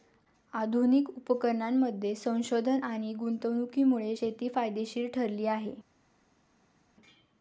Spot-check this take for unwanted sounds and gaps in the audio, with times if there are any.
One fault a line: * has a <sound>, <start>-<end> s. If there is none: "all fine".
all fine